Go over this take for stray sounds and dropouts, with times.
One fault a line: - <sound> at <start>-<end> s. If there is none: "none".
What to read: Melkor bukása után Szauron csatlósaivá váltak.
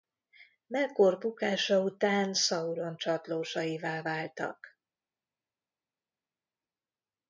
none